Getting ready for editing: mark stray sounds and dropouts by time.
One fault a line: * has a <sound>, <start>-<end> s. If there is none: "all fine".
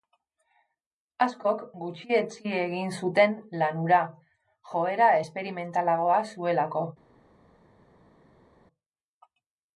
all fine